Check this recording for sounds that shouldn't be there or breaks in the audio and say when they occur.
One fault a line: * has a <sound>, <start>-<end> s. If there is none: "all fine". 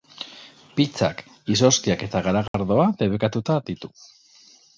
* has a dropout, 2.5-2.5 s